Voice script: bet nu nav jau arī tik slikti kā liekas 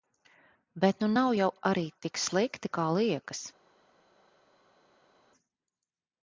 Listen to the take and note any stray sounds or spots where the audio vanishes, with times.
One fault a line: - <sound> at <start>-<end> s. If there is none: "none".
none